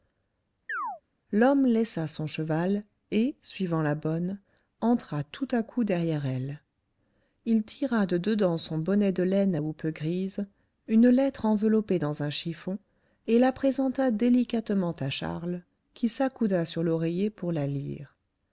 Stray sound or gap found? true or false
true